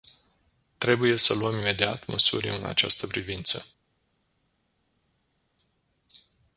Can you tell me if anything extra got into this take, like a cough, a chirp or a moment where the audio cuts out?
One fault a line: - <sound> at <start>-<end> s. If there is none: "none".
none